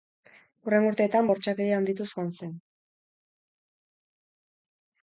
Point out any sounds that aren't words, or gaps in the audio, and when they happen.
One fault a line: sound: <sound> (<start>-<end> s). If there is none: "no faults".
no faults